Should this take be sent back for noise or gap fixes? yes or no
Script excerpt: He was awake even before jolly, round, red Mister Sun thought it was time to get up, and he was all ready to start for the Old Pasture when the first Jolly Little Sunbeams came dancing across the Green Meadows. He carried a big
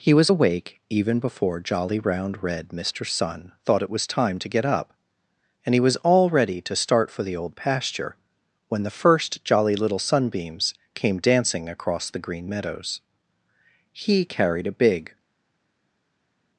no